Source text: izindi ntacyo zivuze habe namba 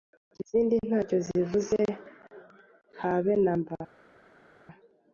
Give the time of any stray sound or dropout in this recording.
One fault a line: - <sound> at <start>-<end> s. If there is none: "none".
none